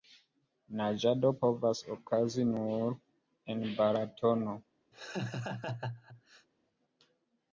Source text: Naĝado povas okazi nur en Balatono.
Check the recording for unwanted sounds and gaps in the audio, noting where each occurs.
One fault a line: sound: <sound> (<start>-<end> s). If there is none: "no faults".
sound: laugh (4.9-6.5 s)